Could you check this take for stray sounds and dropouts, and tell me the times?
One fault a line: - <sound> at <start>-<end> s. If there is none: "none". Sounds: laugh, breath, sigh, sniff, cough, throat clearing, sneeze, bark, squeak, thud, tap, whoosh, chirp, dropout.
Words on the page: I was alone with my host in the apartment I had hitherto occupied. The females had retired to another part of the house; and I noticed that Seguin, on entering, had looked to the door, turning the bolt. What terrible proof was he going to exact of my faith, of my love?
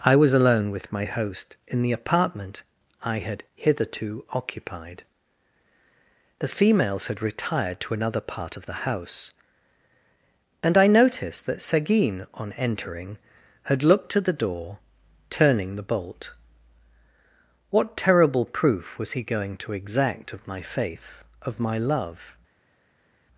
none